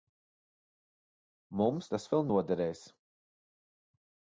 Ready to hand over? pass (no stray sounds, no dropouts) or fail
pass